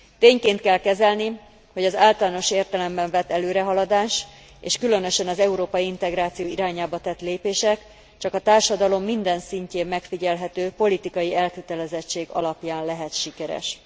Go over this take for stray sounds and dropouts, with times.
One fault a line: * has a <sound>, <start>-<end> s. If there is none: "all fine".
all fine